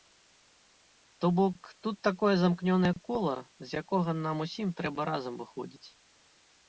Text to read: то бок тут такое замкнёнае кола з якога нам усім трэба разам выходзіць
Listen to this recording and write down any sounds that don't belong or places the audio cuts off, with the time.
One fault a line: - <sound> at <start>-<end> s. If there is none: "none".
none